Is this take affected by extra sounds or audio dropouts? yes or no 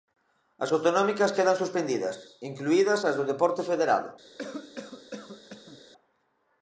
yes